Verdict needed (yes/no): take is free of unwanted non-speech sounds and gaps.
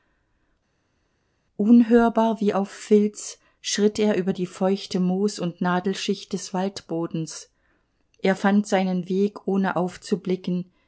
yes